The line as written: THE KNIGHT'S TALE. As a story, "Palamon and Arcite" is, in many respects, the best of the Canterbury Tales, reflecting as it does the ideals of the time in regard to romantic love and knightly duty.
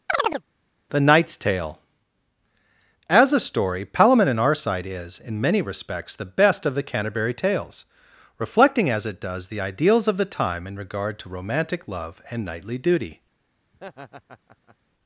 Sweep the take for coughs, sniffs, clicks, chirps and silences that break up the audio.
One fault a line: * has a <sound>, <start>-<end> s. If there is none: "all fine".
* has a chirp, 0.1-0.4 s
* has a laugh, 13.7-14.8 s